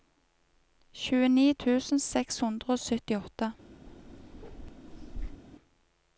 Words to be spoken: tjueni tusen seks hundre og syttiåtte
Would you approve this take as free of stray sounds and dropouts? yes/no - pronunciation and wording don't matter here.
no